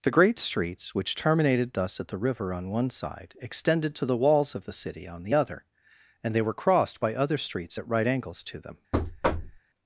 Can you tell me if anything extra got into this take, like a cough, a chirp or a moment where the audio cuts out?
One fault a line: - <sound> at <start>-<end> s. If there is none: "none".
- thud at 8.9-9.6 s